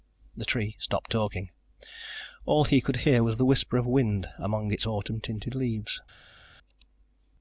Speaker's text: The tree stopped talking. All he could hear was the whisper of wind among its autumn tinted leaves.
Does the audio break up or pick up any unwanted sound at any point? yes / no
no